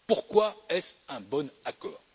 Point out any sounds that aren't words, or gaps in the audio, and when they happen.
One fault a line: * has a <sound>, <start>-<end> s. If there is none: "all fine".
all fine